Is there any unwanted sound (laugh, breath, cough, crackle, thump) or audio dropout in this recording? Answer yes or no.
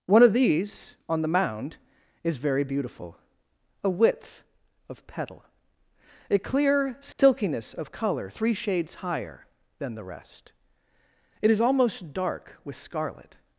yes